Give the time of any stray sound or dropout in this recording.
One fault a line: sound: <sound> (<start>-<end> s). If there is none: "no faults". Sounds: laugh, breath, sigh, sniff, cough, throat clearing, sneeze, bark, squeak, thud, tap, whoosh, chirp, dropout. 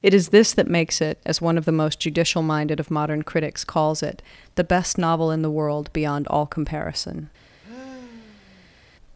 sound: sigh (7.6-8.8 s)